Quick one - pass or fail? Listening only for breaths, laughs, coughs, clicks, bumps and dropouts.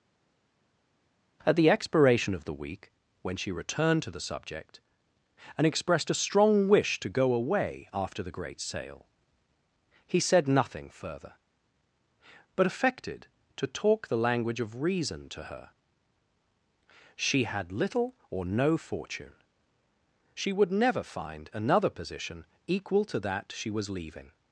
pass